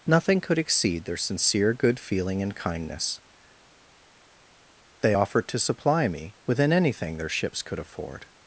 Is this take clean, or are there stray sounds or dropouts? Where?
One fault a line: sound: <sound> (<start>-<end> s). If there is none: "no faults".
no faults